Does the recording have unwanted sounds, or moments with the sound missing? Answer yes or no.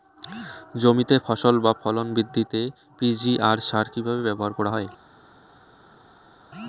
no